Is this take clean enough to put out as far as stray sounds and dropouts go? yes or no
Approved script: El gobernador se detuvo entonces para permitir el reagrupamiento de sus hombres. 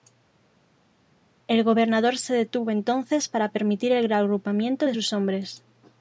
yes